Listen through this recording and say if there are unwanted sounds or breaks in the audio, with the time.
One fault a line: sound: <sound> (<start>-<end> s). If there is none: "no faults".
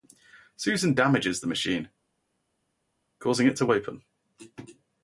no faults